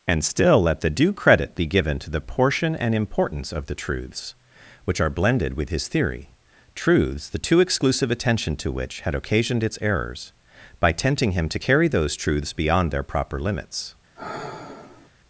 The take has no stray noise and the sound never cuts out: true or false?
false